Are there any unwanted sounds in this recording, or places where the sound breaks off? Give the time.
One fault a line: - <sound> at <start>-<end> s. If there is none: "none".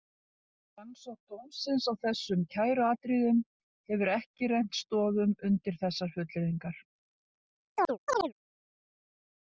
- chirp at 7.8-8.3 s